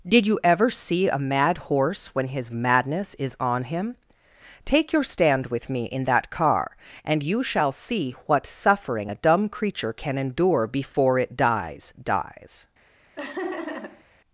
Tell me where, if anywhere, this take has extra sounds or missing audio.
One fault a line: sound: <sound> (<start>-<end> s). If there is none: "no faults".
sound: laugh (13.2-14.0 s)